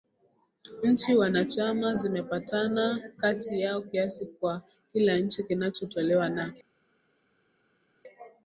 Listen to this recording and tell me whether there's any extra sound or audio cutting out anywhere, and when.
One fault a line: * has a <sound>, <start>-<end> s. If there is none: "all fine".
all fine